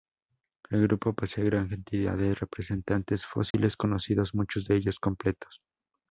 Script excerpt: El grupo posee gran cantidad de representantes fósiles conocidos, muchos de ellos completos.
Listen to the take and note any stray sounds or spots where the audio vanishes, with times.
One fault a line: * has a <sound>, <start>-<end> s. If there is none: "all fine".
* has a dropout, 3.5-3.5 s